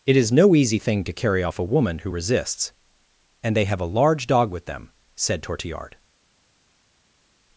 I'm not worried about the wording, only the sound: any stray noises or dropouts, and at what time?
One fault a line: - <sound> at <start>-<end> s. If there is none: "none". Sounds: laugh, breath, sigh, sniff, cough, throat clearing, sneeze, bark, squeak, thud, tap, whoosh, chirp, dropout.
none